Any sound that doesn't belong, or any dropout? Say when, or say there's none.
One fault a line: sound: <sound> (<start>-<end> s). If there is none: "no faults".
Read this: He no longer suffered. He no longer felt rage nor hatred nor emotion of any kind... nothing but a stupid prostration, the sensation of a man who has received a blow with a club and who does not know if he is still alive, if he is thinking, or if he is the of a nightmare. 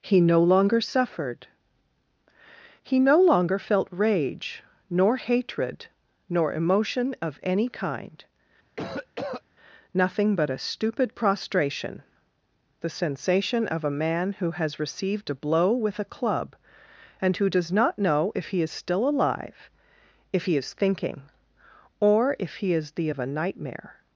sound: cough (8.8-9.4 s)